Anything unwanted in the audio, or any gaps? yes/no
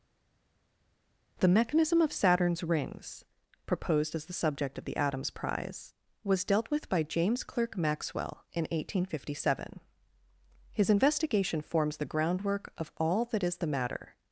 no